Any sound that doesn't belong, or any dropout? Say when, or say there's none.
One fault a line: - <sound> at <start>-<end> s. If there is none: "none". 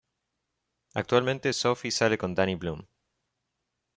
none